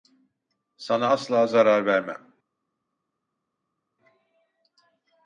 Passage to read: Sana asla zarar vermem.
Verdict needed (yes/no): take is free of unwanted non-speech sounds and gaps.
yes